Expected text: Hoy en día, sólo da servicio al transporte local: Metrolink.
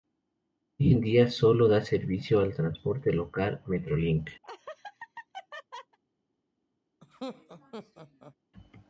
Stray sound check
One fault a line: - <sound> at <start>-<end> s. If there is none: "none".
- laugh at 4.4-6.0 s
- laugh at 7.0-8.4 s